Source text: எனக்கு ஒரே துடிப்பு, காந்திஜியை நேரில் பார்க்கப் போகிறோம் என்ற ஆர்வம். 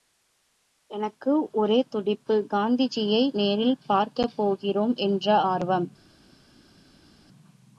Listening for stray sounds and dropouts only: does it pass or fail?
pass